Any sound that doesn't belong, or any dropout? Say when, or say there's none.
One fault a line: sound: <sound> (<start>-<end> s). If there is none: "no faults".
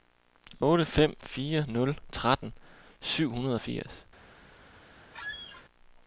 sound: squeak (5.1-5.7 s)